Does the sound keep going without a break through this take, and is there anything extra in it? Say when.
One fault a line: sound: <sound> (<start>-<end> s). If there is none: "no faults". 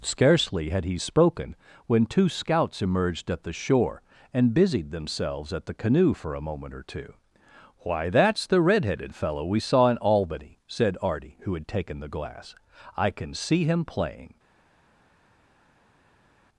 no faults